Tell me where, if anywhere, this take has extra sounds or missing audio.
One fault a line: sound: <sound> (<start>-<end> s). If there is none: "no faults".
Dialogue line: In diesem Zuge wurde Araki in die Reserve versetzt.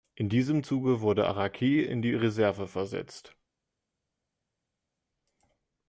no faults